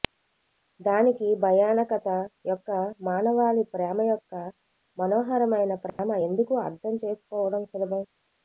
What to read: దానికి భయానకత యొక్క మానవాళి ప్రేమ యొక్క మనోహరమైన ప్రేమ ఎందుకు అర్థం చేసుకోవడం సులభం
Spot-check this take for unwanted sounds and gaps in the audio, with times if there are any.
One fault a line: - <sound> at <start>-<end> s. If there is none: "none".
- dropout at 5.9-6.0 s